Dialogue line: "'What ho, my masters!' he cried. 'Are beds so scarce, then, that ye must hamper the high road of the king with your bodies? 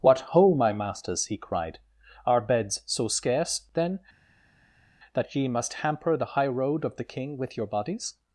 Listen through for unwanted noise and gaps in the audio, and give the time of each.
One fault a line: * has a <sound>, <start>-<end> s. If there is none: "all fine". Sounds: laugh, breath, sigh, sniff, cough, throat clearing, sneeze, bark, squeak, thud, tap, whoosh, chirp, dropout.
all fine